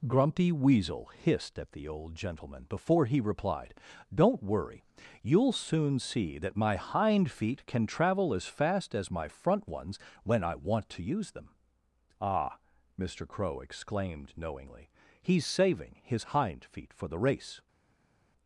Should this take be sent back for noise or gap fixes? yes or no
no